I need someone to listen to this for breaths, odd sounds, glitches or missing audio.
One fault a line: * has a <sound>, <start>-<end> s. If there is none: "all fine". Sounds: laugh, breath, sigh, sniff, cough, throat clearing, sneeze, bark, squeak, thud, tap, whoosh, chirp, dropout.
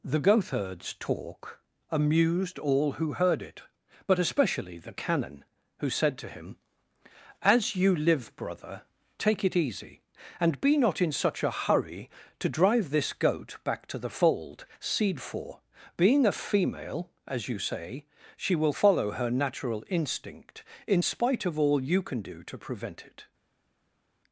all fine